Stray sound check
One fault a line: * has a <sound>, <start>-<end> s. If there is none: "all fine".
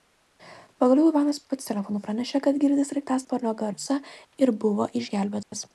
* has a dropout, 5.4-5.5 s